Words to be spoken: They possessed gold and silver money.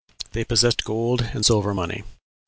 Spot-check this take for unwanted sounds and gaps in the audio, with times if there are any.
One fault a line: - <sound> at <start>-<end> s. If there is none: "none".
none